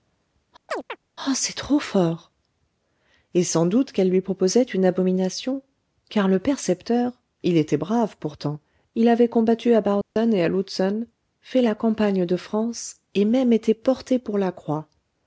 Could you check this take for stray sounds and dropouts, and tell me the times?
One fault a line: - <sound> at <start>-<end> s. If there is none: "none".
- chirp at 0.7-1.0 s
- dropout at 10.0-10.2 s